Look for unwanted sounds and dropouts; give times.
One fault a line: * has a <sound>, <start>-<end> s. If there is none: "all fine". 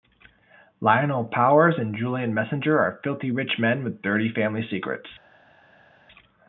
all fine